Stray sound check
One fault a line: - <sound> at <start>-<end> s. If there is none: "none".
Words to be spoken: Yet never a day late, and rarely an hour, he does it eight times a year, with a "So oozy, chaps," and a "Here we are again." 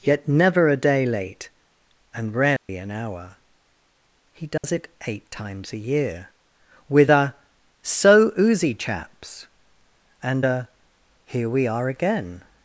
- dropout at 2.6-2.7 s
- dropout at 4.6-4.6 s